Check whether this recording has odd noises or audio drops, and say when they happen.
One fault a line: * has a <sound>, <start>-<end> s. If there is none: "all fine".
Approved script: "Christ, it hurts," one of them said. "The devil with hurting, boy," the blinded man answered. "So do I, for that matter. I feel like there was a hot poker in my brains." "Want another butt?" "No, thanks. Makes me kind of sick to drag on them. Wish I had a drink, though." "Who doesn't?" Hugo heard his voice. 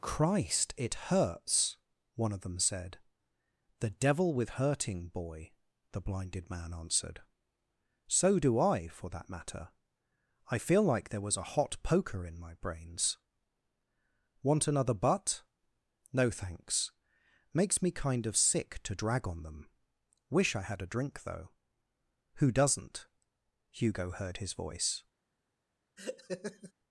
* has a laugh, 26.0-26.7 s